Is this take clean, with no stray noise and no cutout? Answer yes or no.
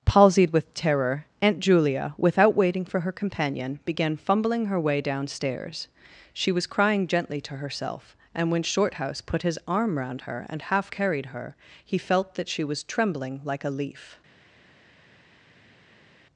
yes